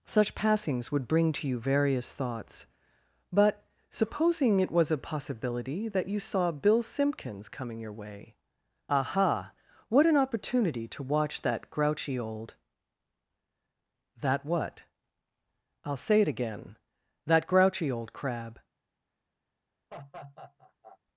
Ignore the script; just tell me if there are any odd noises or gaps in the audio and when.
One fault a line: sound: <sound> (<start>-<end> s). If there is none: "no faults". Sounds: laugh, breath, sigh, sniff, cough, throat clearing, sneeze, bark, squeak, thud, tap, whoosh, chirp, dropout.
sound: laugh (19.9-21.0 s)